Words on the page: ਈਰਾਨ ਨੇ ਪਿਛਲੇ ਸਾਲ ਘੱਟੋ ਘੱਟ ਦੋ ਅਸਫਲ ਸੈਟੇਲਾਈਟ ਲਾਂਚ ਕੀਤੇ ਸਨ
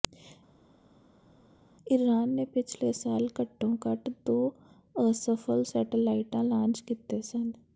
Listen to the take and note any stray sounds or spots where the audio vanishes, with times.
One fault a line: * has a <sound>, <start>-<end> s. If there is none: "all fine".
all fine